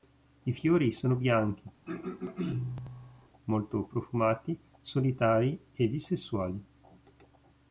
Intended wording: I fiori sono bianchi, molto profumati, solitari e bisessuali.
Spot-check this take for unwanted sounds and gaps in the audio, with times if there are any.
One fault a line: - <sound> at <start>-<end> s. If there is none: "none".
- throat clearing at 1.9-3.3 s